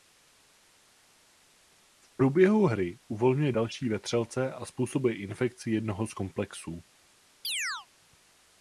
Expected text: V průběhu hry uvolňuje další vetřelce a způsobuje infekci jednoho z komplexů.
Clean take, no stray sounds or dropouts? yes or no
no